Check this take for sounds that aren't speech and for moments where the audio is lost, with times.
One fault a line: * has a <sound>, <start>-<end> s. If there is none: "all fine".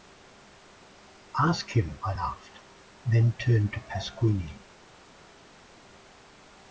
all fine